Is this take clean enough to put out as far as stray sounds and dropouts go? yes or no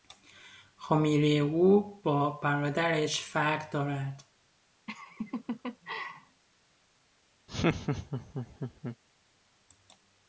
no